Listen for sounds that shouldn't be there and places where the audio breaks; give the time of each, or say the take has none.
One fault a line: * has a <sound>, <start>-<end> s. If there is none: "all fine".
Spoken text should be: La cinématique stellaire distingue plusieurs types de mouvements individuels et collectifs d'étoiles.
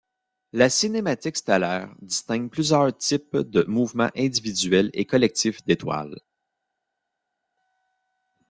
all fine